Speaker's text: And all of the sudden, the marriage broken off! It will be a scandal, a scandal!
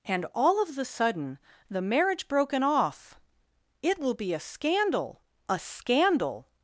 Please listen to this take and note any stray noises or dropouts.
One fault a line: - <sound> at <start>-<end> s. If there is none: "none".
none